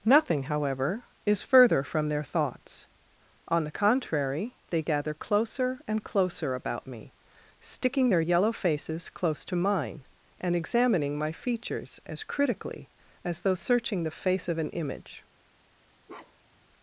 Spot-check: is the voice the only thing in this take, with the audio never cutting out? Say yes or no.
no